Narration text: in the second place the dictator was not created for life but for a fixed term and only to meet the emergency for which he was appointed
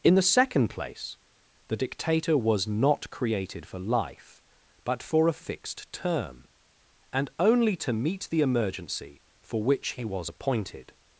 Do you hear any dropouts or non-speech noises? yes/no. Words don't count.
no